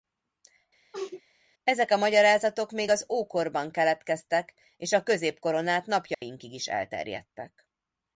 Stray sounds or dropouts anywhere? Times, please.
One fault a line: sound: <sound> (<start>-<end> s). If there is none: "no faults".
sound: sneeze (0.9-1.2 s)
sound: dropout (6.1-6.2 s)